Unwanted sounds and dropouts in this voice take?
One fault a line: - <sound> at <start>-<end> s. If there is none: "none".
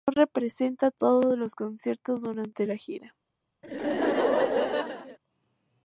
- laugh at 3.6-5.2 s